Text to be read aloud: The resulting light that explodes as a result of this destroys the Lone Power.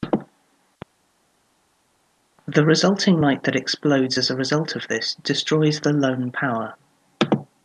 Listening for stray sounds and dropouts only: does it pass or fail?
pass